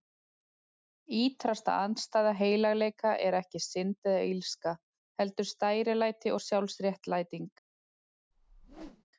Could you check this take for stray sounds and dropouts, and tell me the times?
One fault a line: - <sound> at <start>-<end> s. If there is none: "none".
- whoosh at 8.3-9.0 s